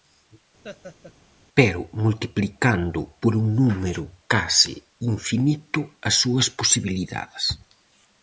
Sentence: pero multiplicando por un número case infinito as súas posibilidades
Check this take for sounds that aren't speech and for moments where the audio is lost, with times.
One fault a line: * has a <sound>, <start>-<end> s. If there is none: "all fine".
* has a laugh, 0.6-1.1 s